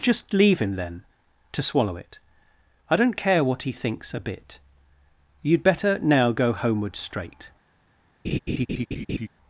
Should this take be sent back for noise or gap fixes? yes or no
yes